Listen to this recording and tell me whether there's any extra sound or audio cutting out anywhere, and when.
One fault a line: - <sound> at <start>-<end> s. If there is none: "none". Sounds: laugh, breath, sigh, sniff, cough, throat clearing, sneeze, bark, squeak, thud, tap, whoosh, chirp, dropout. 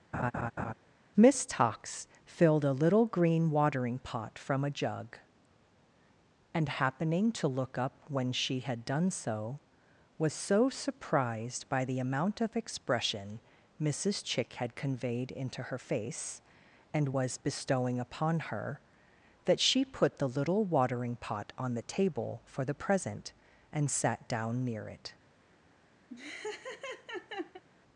- laugh at 0.1-0.7 s
- laugh at 26.1-27.6 s